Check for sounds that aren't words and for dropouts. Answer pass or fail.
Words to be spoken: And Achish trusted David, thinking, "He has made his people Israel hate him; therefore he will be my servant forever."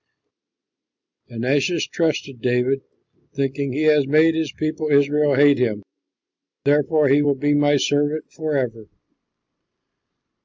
pass